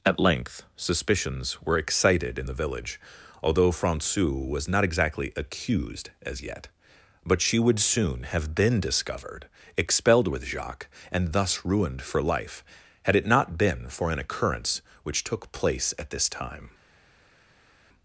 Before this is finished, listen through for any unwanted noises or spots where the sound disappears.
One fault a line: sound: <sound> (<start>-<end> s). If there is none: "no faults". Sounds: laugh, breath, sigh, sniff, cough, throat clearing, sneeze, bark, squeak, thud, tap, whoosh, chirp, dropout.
no faults